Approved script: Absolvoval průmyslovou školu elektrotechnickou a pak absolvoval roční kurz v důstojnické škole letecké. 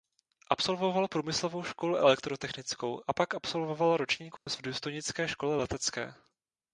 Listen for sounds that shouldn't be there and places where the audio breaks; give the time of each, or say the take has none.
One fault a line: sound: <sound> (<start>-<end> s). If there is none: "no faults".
sound: dropout (4.4-4.5 s)